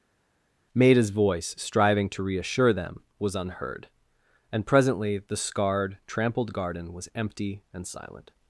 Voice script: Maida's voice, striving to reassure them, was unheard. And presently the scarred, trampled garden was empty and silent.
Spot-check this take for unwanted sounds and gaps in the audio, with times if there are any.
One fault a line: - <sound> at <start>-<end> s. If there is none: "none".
none